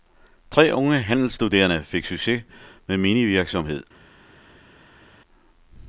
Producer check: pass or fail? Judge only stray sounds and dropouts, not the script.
pass